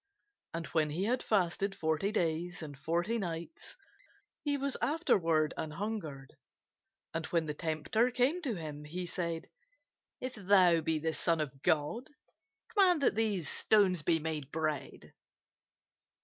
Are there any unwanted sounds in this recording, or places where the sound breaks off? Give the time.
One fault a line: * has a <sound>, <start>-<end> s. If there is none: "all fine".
all fine